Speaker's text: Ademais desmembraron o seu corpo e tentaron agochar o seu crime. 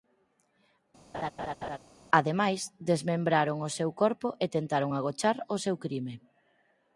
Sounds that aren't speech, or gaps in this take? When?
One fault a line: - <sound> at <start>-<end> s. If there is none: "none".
- laugh at 1.1-1.8 s